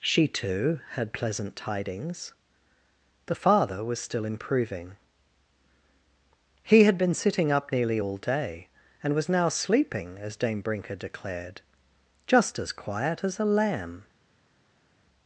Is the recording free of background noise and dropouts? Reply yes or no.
yes